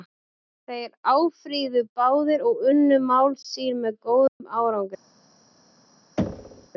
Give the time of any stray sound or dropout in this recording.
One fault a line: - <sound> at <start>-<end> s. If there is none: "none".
- dropout at 4.3-4.4 s
- thud at 6.2-6.7 s